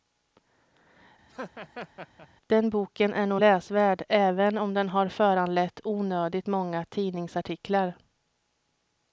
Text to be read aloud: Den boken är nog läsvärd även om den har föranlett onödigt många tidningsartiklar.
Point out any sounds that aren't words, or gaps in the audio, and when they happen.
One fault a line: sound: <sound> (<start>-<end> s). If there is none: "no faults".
sound: laugh (1.3-2.3 s)